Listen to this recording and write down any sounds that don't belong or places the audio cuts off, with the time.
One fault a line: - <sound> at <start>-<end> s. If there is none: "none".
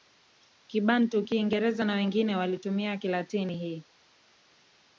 none